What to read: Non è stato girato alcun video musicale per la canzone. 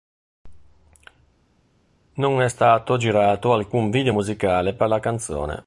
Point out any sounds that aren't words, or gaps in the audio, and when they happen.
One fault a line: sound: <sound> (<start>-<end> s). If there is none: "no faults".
no faults